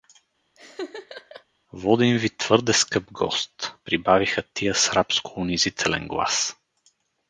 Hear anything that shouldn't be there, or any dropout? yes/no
yes